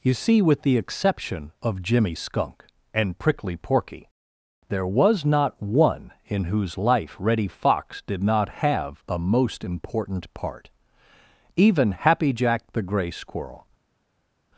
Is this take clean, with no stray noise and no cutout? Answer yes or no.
yes